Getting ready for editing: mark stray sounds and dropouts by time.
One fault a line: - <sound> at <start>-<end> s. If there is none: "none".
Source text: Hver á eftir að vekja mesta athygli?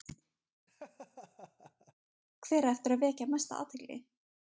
- laugh at 0.7-1.9 s